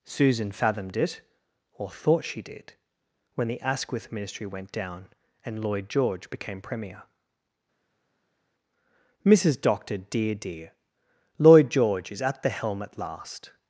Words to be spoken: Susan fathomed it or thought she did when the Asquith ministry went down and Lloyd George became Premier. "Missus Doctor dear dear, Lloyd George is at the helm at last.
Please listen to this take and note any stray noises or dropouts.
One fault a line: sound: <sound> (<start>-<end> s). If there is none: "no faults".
no faults